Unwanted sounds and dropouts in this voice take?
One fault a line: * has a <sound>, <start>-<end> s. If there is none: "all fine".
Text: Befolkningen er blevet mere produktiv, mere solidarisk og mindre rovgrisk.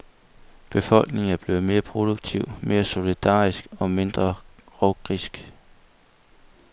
all fine